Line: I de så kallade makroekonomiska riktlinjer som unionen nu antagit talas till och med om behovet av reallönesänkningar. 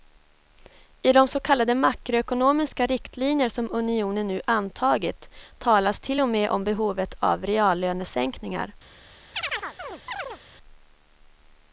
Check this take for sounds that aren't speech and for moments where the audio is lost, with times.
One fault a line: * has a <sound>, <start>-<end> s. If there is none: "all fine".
* has a chirp, 9.3-10.4 s